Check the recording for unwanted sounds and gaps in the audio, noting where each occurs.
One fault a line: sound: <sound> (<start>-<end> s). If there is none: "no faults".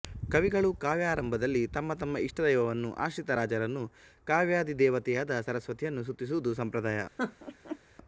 sound: laugh (7.2-7.8 s)